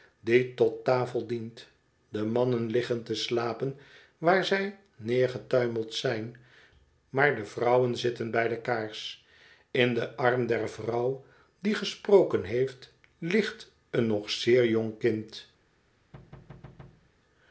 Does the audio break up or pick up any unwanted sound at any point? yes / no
yes